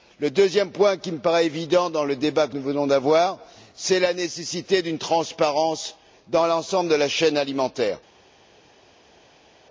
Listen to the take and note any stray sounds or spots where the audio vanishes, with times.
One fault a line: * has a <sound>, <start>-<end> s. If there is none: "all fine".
all fine